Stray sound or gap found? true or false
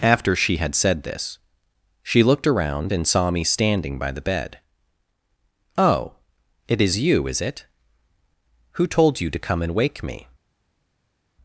false